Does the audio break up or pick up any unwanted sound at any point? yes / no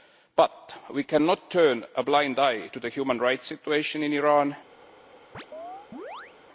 yes